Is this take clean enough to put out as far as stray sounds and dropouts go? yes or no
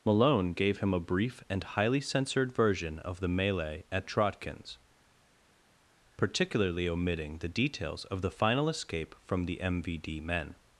yes